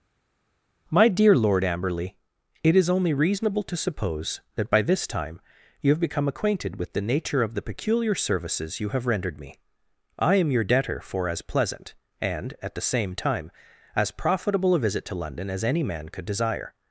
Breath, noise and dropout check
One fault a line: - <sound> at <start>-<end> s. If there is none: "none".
none